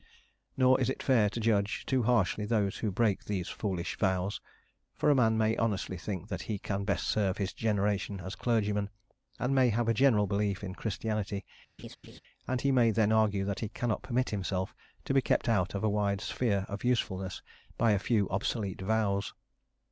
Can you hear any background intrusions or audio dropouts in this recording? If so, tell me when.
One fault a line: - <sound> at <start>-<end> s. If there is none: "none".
- laugh at 11.8-12.2 s